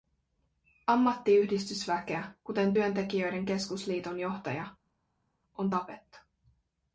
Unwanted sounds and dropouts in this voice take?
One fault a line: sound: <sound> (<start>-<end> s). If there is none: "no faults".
no faults